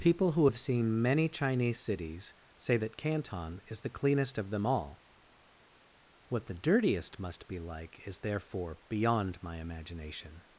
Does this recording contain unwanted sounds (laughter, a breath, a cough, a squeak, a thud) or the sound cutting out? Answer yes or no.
no